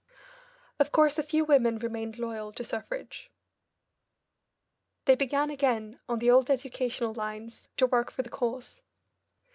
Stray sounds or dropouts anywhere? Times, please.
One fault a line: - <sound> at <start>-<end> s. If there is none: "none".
none